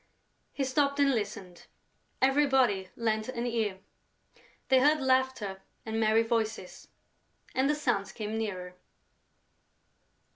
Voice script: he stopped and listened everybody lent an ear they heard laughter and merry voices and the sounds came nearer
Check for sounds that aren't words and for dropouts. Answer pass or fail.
pass